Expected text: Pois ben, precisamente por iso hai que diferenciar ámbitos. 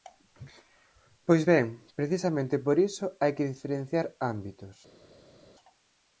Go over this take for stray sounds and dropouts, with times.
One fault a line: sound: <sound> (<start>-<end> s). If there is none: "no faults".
no faults